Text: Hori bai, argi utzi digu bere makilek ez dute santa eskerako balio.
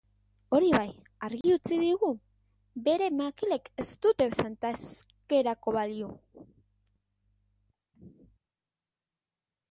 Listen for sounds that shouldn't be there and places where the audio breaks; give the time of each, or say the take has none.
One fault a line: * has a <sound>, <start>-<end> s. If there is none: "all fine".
* has a dropout, 1.4-1.4 s